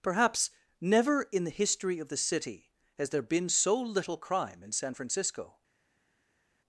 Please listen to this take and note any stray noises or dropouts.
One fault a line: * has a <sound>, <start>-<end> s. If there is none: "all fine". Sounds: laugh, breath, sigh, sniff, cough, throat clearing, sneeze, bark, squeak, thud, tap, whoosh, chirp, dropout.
all fine